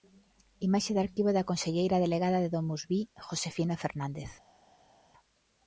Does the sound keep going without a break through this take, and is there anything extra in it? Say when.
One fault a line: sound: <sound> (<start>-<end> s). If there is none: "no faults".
no faults